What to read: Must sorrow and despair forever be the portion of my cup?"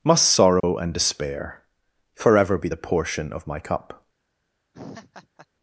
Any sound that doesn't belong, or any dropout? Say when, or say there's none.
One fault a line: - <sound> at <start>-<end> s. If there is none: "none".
- dropout at 0.6-0.6 s
- laugh at 4.7-5.5 s